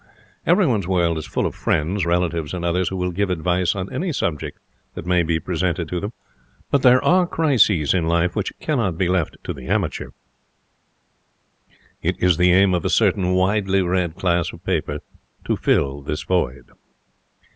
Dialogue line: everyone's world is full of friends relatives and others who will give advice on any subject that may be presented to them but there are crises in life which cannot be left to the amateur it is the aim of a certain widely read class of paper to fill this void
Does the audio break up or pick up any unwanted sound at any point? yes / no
no